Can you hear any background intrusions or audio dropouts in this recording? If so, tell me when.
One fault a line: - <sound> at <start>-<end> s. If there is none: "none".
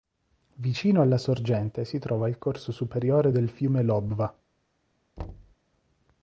- thud at 5.2-5.6 s